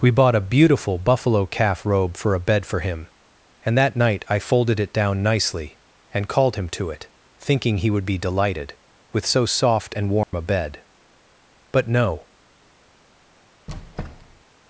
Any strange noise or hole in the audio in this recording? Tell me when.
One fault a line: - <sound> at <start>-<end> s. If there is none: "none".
- dropout at 10.2-10.3 s
- squeak at 13.7-14.4 s